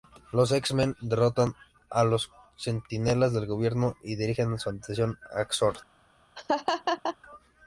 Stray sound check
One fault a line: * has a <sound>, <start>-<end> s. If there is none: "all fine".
* has a laugh, 6.4-7.2 s